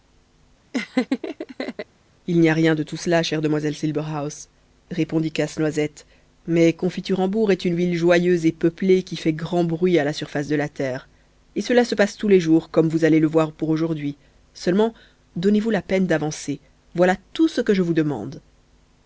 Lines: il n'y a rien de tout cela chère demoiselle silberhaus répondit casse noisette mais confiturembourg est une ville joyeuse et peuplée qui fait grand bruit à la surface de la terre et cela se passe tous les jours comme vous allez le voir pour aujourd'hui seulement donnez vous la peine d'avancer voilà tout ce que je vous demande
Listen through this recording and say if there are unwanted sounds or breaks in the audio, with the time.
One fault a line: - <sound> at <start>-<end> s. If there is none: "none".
- laugh at 0.7-1.9 s